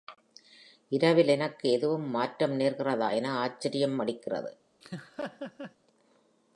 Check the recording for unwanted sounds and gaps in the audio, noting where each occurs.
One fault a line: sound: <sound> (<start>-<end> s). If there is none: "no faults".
sound: laugh (4.8-5.8 s)